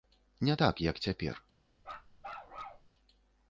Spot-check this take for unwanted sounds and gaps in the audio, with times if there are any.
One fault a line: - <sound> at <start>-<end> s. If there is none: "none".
- bark at 1.8-2.9 s